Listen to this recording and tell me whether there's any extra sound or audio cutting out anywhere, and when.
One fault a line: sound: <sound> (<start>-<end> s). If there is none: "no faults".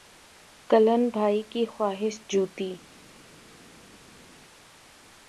no faults